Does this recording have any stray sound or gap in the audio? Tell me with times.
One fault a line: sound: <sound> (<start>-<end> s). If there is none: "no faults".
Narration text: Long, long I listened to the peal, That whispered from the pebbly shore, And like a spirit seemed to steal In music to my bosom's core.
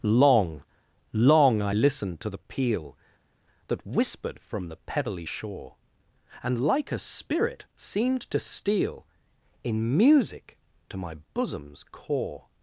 no faults